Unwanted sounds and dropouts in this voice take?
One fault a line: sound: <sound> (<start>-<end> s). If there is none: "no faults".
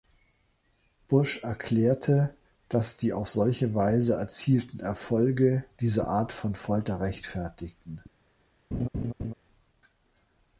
sound: laugh (8.7-9.3 s)